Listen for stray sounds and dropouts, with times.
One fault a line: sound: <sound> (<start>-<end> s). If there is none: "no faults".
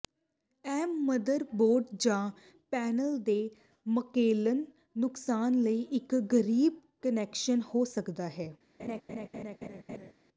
sound: laugh (8.8-10.1 s)